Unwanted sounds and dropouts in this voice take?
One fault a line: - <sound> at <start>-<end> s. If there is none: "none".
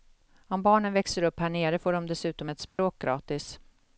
- dropout at 2.7-2.8 s